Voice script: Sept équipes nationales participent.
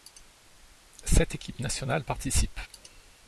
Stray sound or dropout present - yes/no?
no